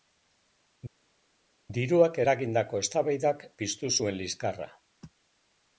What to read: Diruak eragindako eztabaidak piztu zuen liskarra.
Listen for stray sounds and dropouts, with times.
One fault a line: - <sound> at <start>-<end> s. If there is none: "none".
none